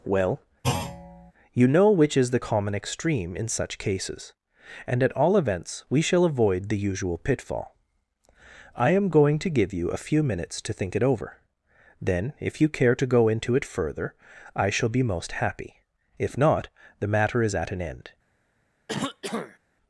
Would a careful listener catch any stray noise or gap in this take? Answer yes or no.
yes